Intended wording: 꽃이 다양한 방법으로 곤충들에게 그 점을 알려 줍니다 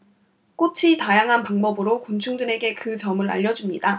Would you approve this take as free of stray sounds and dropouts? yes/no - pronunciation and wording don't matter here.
yes